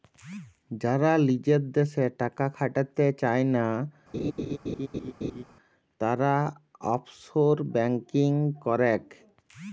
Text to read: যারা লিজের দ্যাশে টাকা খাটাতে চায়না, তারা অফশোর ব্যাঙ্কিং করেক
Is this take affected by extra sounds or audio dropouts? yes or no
yes